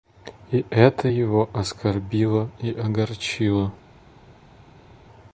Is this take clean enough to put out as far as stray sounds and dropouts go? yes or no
yes